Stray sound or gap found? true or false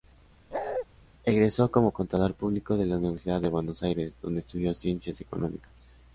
true